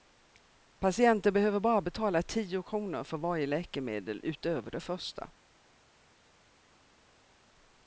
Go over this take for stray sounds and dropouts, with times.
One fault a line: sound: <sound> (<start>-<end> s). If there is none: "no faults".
no faults